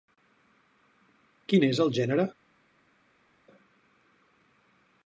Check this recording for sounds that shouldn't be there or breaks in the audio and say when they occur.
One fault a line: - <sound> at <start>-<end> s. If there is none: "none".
none